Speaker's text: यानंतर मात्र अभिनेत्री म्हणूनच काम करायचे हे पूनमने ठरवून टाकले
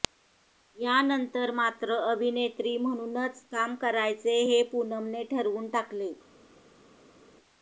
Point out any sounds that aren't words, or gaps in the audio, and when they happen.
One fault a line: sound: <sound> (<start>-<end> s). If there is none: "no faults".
no faults